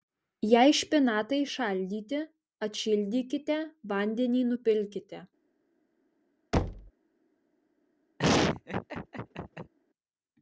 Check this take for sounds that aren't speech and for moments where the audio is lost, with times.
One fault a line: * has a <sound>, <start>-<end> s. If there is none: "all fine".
* has a thud, 6.5-6.9 s
* has a laugh, 8.2-9.7 s